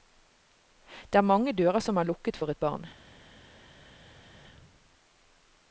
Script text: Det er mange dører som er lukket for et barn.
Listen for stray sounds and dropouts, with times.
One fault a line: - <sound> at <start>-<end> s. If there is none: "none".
none